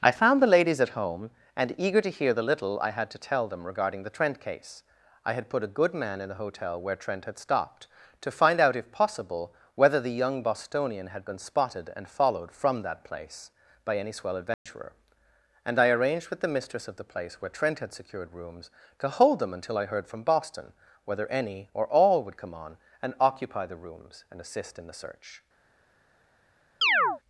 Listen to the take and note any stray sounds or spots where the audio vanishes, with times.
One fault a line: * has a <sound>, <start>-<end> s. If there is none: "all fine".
* has a dropout, 14.5-14.7 s
* has a chirp, 26.8-27.2 s